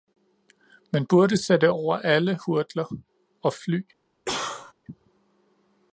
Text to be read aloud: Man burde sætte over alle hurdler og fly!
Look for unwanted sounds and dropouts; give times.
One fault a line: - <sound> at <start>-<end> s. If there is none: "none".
- cough at 4.2-4.7 s